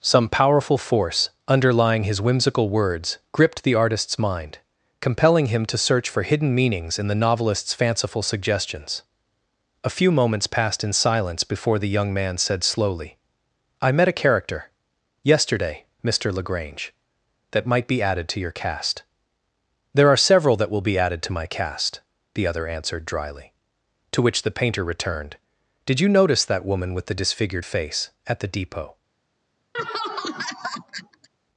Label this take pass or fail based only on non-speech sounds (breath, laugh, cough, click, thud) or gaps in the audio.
fail